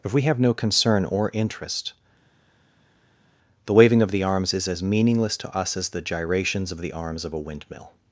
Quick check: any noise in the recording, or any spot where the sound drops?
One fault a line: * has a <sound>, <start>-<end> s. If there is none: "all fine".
all fine